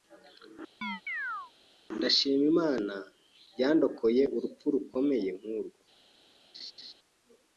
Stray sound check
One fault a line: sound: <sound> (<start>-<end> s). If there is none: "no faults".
sound: chirp (0.8-1.5 s)
sound: laugh (6.5-6.9 s)